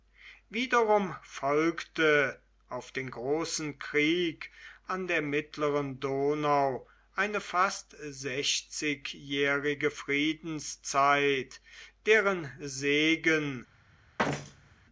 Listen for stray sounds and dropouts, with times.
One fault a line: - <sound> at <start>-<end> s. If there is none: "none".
- thud at 14.2-14.8 s